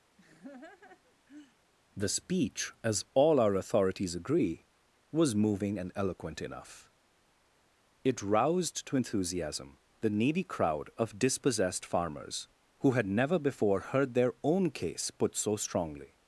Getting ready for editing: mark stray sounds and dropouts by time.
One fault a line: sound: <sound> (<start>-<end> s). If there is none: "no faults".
sound: laugh (0.2-1.6 s)